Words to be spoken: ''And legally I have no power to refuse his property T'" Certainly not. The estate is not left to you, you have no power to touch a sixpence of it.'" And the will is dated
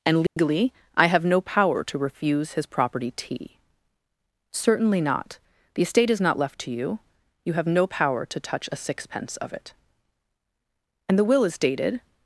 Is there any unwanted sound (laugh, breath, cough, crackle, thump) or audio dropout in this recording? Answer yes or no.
yes